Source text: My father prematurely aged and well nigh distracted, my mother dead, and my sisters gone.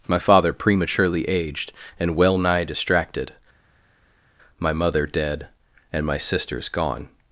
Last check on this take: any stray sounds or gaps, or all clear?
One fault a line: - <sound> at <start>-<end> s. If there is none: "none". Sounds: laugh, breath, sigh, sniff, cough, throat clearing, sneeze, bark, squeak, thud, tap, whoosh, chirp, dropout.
none